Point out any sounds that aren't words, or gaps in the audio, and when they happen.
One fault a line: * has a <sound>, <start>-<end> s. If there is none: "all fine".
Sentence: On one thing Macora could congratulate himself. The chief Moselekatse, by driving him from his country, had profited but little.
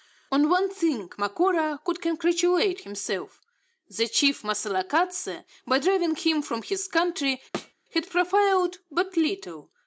* has a thud, 7.5-7.7 s